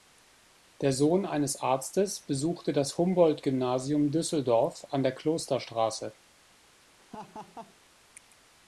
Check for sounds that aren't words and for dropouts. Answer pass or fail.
fail